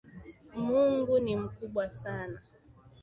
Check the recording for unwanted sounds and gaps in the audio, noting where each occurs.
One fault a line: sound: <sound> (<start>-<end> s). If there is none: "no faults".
no faults